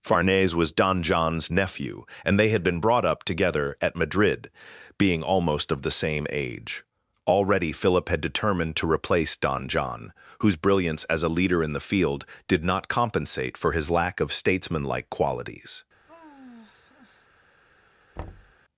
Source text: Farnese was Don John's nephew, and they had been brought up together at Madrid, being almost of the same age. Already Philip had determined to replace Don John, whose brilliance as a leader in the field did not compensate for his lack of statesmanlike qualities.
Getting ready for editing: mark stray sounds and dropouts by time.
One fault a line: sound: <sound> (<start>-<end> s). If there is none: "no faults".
sound: sigh (16.1-17.3 s)
sound: thud (18.2-18.5 s)